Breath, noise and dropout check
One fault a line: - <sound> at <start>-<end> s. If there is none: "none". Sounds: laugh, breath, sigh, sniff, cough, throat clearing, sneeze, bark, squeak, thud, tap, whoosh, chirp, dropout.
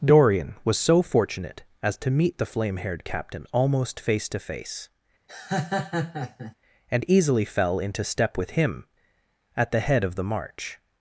- laugh at 5.3-6.6 s